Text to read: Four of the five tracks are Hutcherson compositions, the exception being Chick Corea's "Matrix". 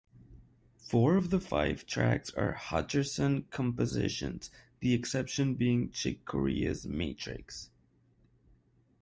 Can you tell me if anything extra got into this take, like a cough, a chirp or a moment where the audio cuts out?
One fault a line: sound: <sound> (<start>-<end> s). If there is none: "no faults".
no faults